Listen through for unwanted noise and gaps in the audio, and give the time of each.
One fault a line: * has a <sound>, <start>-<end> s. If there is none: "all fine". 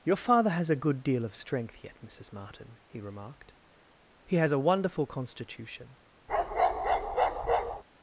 * has a bark, 6.3-7.8 s